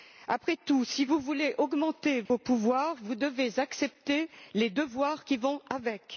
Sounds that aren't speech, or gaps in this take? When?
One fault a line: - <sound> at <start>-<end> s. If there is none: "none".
- dropout at 2.3-2.3 s